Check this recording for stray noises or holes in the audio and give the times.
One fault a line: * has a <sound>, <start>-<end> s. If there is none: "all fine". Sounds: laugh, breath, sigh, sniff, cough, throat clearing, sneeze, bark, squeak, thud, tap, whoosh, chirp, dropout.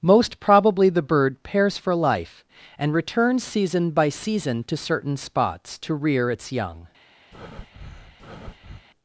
* has a breath, 7.3-8.9 s